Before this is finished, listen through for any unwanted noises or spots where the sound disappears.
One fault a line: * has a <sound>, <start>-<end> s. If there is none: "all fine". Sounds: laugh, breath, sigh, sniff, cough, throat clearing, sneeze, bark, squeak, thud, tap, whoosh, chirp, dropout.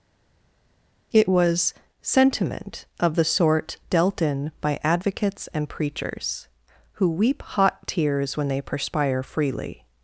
all fine